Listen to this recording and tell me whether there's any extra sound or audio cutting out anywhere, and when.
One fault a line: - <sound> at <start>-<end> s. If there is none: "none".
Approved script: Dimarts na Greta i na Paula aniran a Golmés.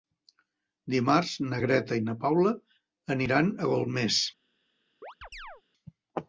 - chirp at 5.0-5.6 s